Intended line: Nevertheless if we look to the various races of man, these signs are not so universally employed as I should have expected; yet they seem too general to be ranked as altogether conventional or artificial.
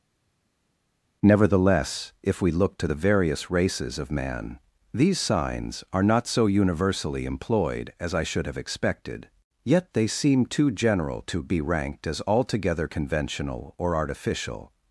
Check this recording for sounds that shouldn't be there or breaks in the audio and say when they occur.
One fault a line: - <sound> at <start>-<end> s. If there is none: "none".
none